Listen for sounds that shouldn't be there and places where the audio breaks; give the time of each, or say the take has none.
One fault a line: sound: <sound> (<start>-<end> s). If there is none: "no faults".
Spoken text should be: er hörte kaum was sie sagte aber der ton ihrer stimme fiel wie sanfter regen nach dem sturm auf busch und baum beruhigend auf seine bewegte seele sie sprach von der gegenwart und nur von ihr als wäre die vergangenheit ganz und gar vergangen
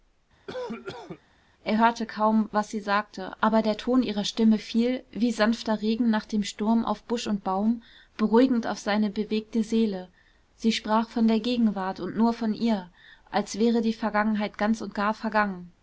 sound: cough (0.5-1.2 s)